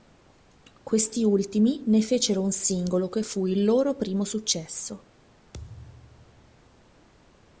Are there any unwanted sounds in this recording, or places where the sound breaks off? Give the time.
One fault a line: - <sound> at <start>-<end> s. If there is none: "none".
- thud at 5.5-6.8 s